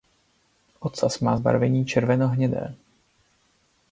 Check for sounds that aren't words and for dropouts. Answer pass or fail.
pass